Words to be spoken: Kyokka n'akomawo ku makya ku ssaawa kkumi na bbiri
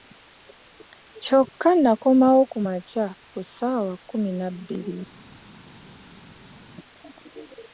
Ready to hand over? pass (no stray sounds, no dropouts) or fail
pass